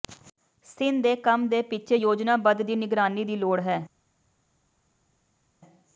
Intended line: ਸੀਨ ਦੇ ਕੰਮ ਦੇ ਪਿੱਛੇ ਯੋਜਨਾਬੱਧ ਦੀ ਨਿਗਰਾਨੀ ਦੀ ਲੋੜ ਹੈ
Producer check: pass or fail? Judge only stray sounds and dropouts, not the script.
pass